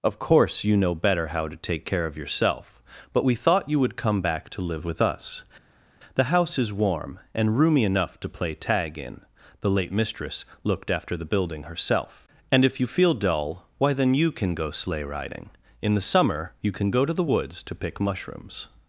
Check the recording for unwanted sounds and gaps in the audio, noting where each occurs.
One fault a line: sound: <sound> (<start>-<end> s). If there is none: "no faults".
no faults